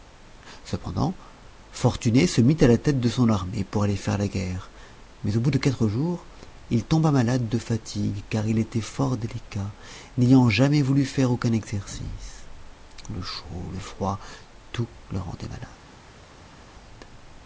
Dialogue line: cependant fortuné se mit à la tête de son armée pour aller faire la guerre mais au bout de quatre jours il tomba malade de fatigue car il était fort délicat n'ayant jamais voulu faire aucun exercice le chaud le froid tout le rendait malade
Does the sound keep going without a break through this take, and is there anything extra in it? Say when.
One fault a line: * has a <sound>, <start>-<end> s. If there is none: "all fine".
all fine